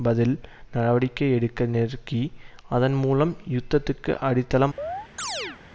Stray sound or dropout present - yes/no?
yes